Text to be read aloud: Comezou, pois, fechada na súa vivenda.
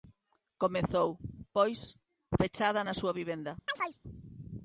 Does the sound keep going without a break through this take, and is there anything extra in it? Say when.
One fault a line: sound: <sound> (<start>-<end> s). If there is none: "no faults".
sound: chirp (3.7-4.0 s)